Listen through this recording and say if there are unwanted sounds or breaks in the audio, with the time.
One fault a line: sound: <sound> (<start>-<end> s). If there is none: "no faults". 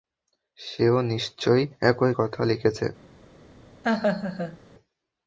sound: laugh (3.8-4.6 s)